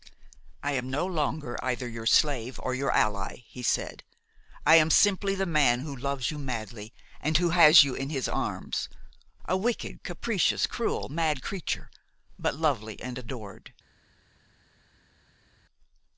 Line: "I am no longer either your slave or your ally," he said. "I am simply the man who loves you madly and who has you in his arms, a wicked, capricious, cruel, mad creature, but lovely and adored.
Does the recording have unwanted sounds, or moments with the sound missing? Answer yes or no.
no